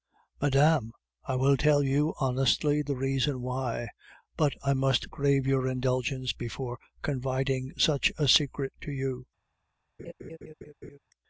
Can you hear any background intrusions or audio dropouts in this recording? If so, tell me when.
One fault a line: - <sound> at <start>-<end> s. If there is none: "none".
- laugh at 10.0-11.0 s